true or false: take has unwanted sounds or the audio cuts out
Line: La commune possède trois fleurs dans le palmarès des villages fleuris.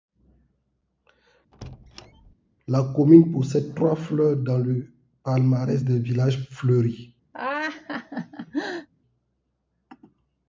true